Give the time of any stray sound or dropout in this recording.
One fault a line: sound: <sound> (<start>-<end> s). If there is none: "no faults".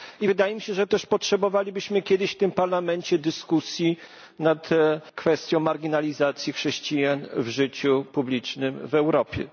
no faults